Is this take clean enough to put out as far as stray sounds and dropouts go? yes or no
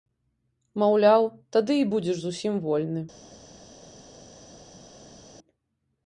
yes